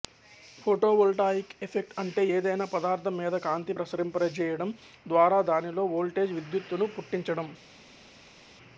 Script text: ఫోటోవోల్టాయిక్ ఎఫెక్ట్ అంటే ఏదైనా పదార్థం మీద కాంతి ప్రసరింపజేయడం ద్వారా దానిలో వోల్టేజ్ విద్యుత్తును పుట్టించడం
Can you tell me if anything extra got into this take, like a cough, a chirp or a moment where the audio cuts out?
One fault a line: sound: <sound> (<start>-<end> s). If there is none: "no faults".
no faults